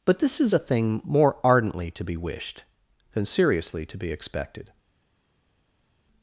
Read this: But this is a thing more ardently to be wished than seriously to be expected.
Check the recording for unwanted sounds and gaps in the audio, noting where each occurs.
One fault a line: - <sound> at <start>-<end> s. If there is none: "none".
none